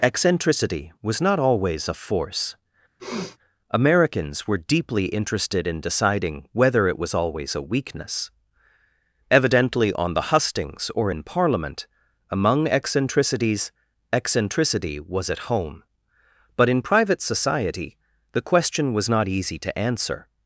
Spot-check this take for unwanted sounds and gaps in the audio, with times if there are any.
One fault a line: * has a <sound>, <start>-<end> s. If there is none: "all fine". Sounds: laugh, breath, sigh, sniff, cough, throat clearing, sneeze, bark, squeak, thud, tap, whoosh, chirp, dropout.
* has a sniff, 3.0-3.4 s